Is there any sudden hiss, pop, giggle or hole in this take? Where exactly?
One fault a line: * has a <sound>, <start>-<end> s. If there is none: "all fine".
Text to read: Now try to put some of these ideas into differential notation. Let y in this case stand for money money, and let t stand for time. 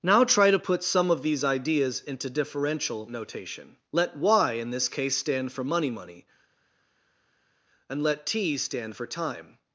all fine